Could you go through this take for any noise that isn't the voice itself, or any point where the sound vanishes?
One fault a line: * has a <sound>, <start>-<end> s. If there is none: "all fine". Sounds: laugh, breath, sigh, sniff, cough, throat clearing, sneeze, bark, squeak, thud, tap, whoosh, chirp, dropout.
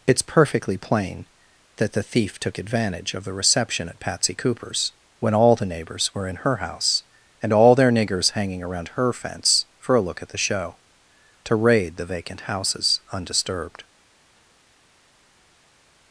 all fine